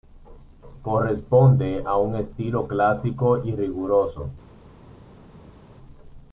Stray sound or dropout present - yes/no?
no